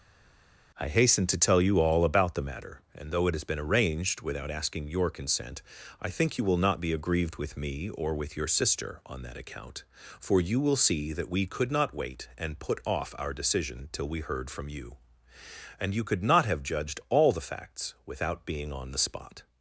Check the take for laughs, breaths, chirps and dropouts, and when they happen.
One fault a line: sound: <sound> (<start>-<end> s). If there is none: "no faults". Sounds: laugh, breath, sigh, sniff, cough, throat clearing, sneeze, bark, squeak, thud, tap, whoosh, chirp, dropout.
no faults